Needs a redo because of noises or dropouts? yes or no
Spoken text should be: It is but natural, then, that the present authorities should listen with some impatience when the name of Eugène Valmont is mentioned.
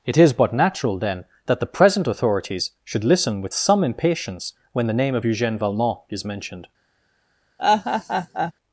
yes